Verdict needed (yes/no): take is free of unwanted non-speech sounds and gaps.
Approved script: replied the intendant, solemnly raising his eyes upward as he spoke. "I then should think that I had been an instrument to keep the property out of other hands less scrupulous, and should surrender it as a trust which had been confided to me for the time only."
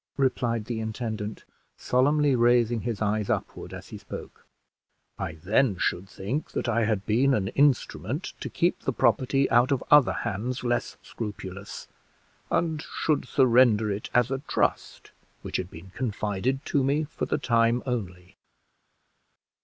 yes